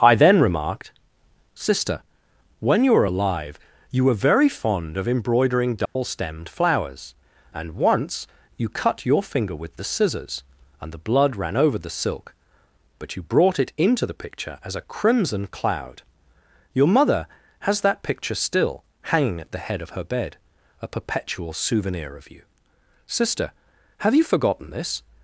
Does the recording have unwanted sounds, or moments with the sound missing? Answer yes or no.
yes